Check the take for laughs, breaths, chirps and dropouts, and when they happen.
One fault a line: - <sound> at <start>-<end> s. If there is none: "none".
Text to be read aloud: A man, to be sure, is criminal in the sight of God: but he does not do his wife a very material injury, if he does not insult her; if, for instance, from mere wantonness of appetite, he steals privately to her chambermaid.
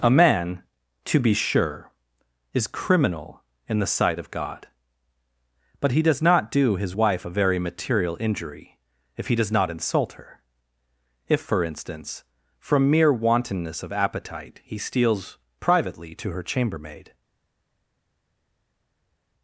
none